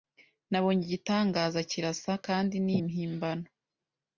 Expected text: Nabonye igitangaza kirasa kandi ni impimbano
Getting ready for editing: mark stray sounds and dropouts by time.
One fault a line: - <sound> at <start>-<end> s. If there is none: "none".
none